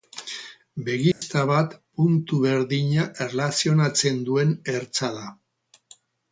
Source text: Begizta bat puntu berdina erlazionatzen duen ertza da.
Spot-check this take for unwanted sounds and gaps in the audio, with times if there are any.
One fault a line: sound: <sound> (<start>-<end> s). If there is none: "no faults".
sound: dropout (1.1-1.2 s)